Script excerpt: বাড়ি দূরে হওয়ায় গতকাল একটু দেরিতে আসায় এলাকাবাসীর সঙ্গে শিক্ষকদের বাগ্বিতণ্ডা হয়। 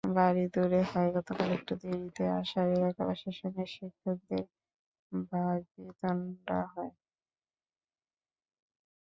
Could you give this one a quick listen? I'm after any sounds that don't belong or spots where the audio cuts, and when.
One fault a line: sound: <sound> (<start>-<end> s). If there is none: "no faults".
no faults